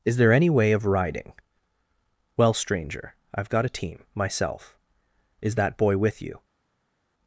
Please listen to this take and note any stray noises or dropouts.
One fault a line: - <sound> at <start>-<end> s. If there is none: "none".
none